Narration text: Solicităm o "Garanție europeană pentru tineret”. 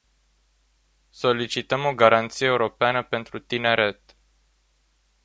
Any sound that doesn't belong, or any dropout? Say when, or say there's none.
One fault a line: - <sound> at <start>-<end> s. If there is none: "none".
none